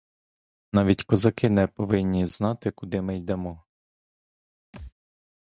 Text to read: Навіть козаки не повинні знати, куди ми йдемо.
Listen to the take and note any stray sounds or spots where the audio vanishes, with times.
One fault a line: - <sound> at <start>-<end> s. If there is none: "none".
- thud at 4.7-4.9 s